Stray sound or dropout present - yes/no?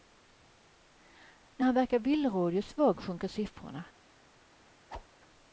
yes